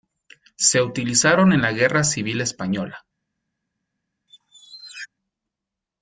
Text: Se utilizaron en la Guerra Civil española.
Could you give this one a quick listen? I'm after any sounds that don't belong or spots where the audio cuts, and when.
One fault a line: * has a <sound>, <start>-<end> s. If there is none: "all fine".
* has a squeak, 4.3-5.1 s